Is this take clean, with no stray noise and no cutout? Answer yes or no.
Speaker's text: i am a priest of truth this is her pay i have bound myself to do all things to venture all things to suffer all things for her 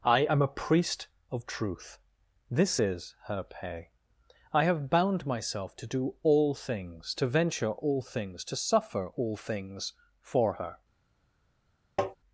no